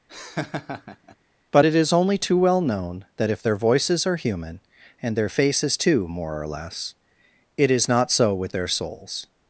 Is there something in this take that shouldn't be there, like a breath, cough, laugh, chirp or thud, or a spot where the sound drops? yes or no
yes